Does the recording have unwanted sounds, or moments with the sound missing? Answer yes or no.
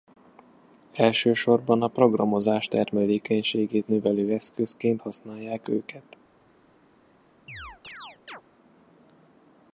yes